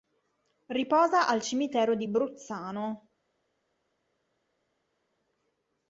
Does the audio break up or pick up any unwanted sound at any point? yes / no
no